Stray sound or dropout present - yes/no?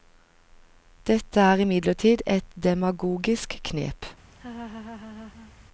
yes